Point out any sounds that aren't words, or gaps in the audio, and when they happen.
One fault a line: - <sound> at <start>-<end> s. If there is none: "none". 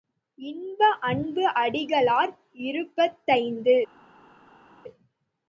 none